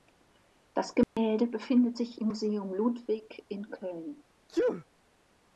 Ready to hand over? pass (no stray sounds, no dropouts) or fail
fail